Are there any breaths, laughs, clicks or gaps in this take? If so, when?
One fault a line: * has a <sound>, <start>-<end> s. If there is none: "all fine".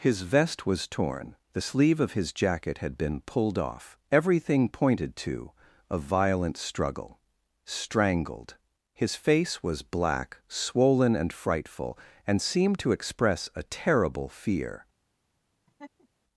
* has a laugh, 15.7-16.1 s